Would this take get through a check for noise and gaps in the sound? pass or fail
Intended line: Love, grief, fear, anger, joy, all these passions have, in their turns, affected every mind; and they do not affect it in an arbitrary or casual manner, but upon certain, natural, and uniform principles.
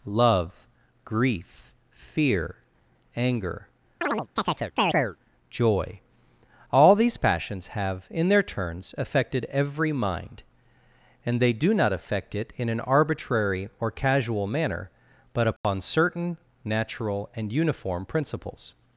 fail